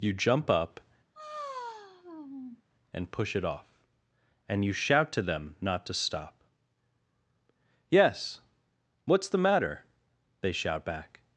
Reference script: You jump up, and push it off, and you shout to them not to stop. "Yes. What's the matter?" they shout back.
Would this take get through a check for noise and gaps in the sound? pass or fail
fail